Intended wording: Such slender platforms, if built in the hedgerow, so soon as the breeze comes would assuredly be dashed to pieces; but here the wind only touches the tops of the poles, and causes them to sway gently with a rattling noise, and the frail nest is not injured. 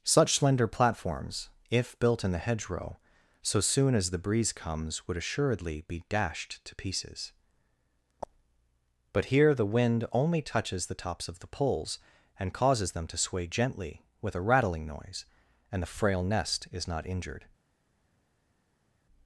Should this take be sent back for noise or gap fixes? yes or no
no